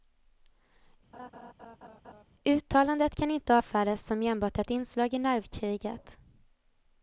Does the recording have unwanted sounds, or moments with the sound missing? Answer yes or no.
yes